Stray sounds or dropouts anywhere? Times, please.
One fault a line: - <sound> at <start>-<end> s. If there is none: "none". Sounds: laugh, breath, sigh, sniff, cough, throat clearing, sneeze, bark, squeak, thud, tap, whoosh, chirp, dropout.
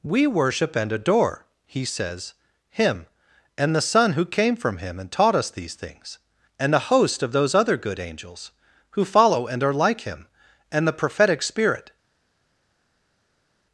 none